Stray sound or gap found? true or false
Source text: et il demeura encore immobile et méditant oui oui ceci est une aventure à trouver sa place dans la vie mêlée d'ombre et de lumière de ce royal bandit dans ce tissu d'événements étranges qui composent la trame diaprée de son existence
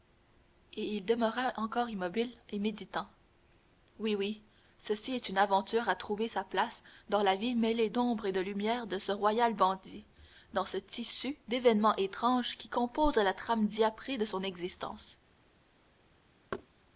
true